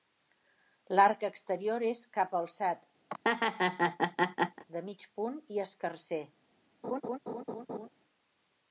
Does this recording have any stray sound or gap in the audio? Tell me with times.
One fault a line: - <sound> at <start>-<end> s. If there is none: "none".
- laugh at 3.1-4.6 s
- laugh at 6.8-7.9 s